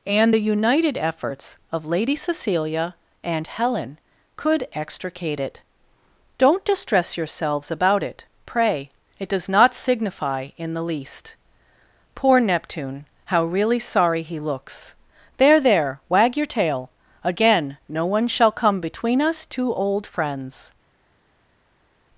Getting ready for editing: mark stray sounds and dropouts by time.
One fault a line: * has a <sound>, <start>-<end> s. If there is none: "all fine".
all fine